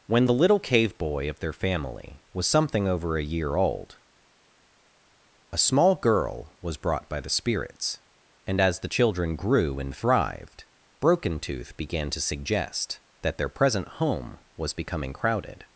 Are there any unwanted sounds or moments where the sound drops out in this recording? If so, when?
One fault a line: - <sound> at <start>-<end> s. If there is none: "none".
none